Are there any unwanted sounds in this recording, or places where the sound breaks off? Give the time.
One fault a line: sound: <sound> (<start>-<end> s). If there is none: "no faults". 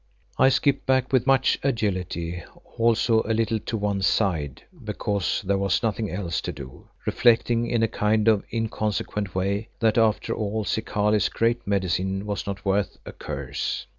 no faults